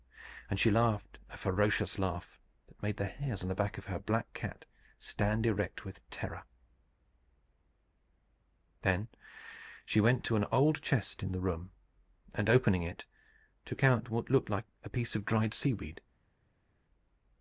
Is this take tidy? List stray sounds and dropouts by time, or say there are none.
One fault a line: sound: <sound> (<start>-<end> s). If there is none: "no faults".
no faults